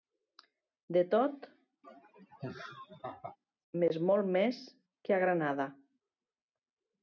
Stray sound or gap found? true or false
true